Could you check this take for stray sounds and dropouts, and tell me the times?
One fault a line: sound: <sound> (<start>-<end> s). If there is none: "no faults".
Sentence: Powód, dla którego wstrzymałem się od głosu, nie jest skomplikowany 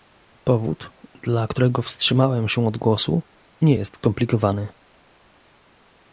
no faults